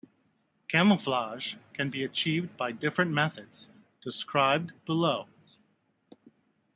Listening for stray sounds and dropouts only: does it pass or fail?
pass